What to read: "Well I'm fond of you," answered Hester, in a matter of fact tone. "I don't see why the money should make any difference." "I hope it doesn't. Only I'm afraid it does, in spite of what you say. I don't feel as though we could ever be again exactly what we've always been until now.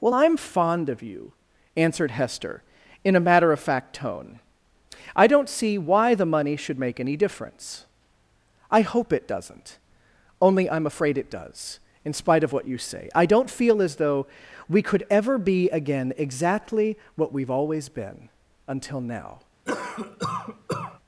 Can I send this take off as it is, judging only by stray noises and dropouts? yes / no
no